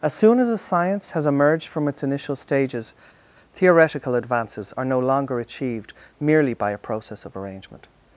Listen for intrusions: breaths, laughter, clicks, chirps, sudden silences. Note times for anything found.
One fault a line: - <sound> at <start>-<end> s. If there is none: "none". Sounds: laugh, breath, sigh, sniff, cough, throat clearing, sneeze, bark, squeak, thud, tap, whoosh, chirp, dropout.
none